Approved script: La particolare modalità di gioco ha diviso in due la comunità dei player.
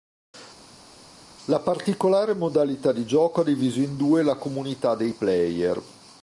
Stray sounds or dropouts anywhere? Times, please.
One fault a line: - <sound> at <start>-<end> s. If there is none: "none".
none